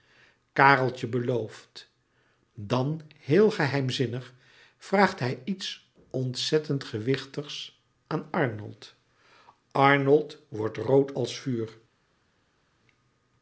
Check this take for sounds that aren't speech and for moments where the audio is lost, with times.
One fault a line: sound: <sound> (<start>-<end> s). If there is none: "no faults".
no faults